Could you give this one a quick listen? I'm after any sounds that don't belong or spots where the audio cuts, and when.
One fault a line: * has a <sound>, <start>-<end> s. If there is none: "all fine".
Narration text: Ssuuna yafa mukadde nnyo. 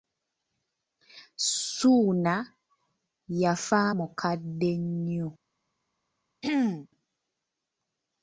* has a throat clearing, 6.4-6.9 s